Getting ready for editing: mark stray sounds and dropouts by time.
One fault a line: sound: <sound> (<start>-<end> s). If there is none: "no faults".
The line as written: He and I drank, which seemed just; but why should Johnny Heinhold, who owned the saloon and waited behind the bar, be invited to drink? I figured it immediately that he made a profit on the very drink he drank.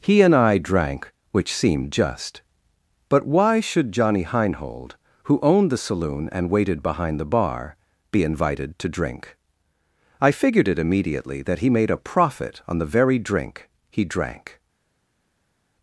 no faults